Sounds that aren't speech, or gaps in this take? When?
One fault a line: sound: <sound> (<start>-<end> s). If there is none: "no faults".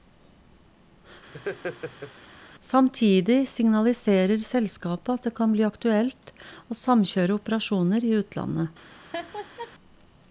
sound: laugh (1.3-2.1 s)
sound: laugh (9.1-9.7 s)